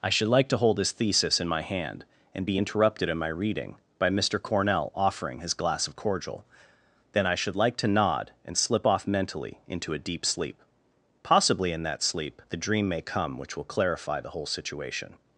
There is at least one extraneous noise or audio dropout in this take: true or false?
false